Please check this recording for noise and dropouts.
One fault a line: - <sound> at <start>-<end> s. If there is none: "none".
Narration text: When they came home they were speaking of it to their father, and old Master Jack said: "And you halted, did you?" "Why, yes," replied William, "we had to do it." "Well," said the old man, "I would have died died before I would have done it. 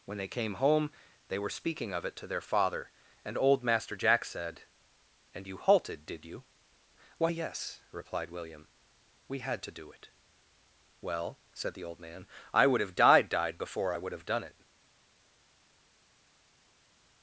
none